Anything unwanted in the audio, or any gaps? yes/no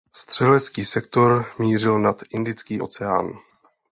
no